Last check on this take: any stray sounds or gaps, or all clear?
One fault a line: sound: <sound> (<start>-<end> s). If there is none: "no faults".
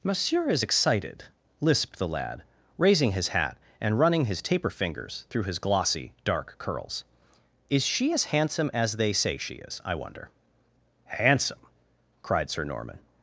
no faults